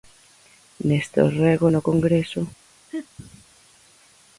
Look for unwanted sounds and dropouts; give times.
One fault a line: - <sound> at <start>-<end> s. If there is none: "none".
- laugh at 2.9-3.1 s